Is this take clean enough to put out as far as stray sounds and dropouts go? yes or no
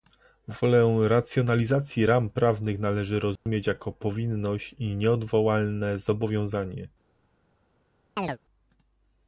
no